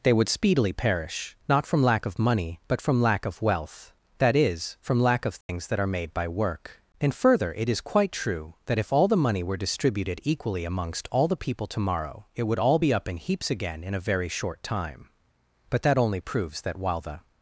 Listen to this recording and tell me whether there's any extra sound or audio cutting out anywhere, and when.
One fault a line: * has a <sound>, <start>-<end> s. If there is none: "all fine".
* has a dropout, 5.4-5.5 s